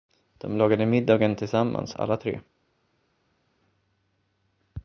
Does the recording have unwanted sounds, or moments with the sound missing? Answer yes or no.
no